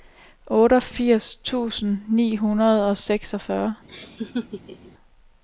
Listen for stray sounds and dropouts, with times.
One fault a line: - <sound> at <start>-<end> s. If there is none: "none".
- laugh at 3.9-4.9 s